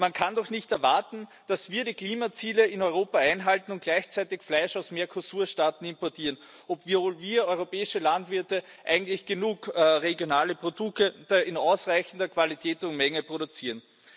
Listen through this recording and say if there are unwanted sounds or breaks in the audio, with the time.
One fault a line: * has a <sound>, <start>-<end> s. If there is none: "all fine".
all fine